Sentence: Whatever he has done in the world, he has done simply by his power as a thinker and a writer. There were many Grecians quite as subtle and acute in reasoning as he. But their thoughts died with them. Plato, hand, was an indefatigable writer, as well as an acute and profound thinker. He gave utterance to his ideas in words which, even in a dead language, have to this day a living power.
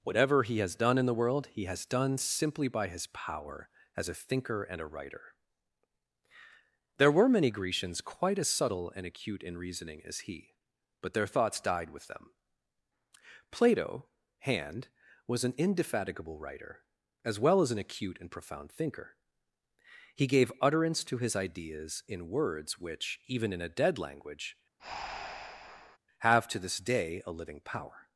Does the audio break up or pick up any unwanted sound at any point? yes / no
yes